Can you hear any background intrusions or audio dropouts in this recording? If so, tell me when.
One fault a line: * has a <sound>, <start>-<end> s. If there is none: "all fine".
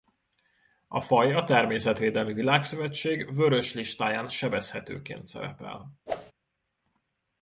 * has a whoosh, 6.1-6.3 s